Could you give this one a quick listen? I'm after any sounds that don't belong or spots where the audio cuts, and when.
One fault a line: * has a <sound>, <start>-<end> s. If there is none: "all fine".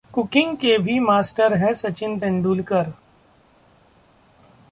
all fine